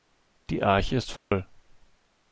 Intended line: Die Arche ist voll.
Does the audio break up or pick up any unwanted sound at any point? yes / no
yes